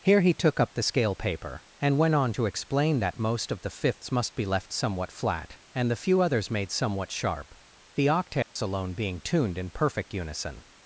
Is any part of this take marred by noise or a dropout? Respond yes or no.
yes